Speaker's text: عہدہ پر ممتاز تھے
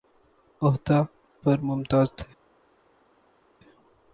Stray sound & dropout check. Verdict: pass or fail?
pass